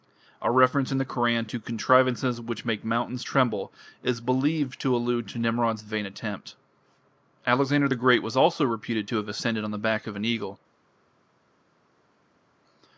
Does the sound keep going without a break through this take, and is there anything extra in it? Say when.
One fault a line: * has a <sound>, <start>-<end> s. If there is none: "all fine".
all fine